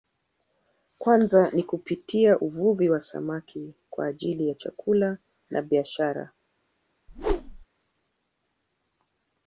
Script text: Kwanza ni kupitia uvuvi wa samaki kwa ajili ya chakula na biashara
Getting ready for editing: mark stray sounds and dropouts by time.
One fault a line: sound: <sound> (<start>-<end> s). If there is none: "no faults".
sound: whoosh (7.1-7.7 s)